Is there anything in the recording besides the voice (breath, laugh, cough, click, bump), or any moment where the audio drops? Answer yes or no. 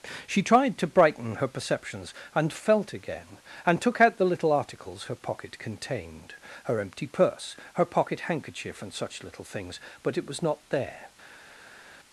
no